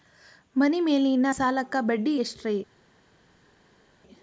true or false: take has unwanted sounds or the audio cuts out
false